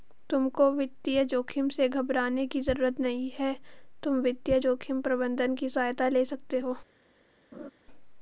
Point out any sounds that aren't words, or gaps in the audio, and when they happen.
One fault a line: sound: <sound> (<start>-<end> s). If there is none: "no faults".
sound: laugh (7.5-7.7 s)